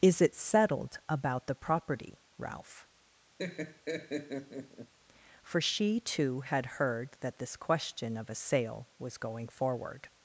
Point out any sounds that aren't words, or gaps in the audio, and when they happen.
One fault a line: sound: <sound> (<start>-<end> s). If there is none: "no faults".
sound: laugh (3.4-4.9 s)